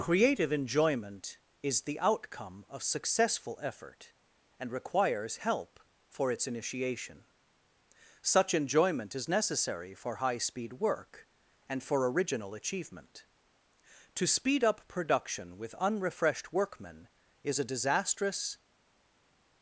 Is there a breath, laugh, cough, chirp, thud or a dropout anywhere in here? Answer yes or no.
no